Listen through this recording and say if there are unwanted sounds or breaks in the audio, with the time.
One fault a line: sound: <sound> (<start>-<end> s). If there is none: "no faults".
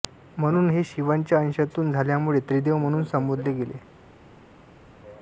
no faults